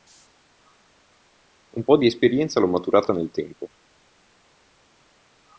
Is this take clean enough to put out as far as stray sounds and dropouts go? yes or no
yes